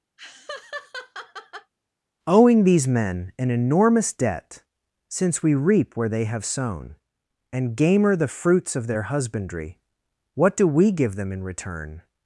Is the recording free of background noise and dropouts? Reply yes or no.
no